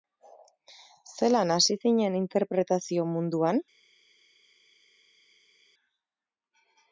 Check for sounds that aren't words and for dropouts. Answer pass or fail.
pass